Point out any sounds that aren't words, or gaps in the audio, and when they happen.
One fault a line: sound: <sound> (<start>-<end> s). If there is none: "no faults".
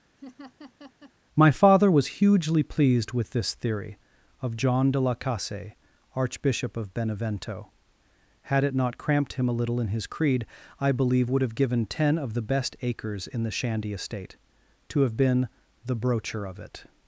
sound: laugh (0.2-1.1 s)